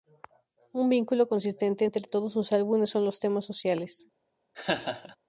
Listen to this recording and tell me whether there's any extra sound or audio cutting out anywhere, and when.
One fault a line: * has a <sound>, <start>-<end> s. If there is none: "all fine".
* has a laugh, 4.5-5.2 s